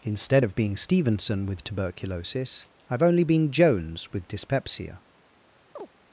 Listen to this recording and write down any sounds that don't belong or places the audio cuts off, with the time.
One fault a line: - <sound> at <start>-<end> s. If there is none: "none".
- chirp at 5.8-5.9 s